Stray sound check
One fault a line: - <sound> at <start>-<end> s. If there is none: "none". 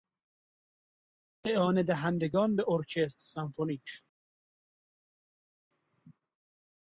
none